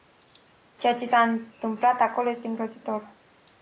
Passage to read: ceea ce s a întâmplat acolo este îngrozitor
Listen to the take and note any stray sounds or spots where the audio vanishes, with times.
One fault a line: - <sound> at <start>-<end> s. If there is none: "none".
none